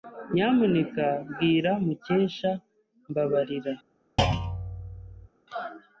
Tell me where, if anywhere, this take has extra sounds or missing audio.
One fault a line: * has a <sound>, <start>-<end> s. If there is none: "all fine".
* has a thud, 4.2-5.3 s